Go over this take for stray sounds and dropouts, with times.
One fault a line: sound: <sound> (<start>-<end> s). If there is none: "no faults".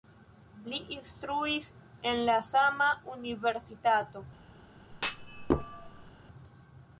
sound: thud (4.9-6.1 s)